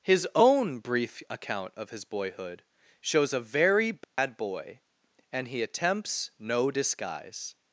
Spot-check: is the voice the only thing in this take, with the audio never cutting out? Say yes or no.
no